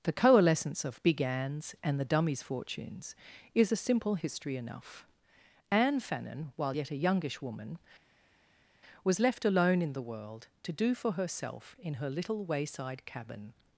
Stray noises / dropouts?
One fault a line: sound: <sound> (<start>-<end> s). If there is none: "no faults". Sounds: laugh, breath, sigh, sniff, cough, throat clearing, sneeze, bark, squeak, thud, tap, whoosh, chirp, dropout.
no faults